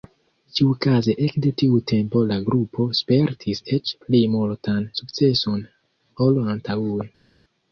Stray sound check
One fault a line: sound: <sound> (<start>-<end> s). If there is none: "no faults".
no faults